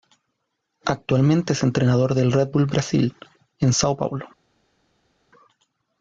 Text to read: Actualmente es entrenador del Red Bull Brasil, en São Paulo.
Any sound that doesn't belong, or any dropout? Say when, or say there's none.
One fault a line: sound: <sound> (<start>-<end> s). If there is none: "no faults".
no faults